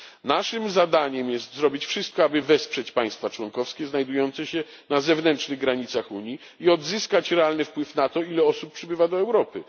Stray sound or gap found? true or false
false